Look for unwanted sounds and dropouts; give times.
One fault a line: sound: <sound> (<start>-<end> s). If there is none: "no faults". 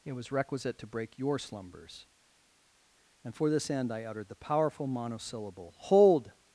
no faults